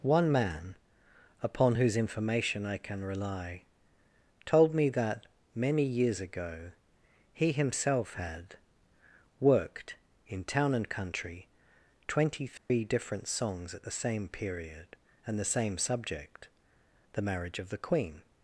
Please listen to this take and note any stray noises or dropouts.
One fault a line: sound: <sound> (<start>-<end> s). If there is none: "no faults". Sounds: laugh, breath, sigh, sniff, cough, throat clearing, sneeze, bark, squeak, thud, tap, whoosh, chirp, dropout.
sound: dropout (12.6-12.7 s)